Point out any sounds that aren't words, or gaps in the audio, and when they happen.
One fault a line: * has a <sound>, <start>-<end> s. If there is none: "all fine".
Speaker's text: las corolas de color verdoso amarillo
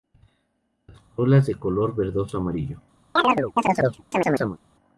* has a chirp, 3.2-4.6 s